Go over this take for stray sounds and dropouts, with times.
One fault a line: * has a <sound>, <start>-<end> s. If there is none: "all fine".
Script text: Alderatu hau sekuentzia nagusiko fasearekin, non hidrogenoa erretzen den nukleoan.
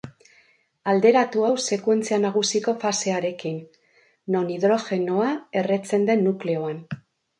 all fine